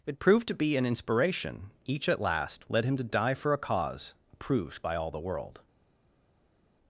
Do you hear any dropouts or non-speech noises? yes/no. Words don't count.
no